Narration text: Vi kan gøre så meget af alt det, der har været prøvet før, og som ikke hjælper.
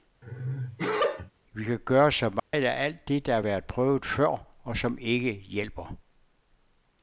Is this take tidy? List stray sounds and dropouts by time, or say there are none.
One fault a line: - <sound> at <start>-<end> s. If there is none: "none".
- sneeze at 0.2-1.3 s
- dropout at 2.4-2.5 s